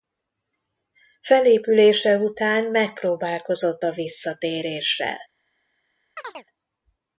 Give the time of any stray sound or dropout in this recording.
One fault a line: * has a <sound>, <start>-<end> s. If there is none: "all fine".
* has a chirp, 6.2-6.4 s